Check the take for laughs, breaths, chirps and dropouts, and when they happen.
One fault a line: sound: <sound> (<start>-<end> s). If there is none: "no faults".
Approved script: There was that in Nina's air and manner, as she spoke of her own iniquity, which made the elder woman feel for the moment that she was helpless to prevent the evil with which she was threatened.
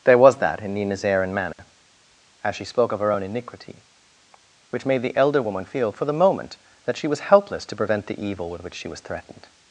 sound: dropout (1.5-1.6 s)